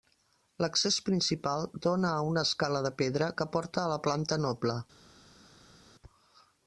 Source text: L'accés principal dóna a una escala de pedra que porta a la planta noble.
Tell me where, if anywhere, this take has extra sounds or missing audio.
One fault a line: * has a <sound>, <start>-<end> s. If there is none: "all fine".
all fine